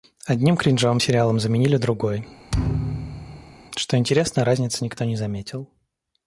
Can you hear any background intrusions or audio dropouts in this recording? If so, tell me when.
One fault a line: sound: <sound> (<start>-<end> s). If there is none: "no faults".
sound: thud (2.5-3.5 s)